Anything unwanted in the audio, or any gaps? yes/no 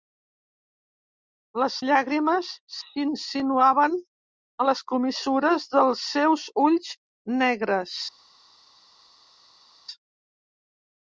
no